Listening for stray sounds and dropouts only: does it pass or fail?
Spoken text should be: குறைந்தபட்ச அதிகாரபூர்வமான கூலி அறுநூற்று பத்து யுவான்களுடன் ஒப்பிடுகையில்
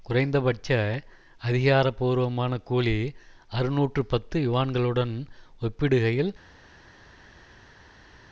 pass